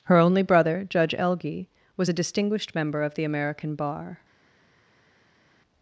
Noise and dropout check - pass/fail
pass